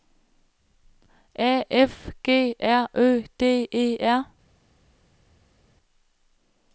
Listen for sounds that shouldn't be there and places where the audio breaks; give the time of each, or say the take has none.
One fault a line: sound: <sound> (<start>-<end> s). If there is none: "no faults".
no faults